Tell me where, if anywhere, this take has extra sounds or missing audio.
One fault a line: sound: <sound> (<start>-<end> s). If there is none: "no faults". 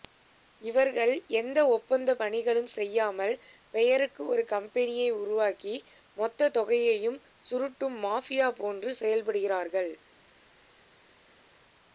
no faults